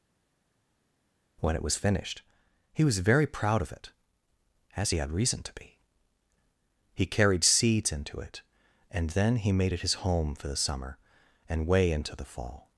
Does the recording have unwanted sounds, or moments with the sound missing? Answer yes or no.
no